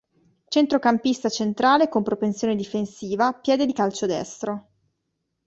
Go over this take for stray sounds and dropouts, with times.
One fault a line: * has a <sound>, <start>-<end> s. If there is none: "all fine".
all fine